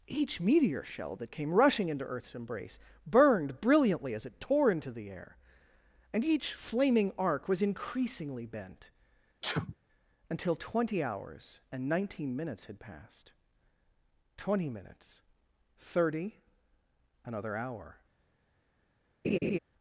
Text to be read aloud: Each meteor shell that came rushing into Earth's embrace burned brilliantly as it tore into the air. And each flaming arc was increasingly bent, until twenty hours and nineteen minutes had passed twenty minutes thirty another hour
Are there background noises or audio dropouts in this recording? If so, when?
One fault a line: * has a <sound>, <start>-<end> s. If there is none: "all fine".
* has a sneeze, 9.4-9.8 s
* has a laugh, 19.2-19.6 s